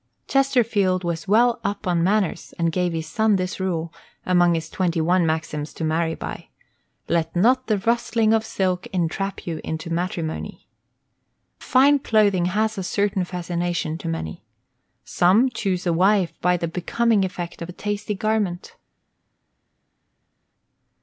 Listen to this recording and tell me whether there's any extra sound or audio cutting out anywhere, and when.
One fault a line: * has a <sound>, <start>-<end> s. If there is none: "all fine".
all fine